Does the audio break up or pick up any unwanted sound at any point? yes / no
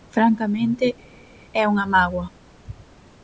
no